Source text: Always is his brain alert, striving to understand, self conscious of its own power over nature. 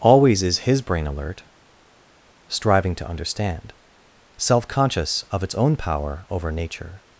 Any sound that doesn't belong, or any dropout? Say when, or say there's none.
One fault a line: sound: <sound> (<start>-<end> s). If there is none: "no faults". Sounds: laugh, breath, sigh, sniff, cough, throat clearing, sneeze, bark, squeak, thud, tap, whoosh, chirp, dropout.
no faults